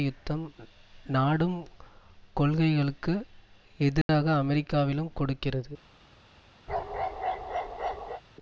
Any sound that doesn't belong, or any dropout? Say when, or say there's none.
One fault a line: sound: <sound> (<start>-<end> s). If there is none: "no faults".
sound: dropout (4.0-4.1 s)
sound: bark (6.7-8.2 s)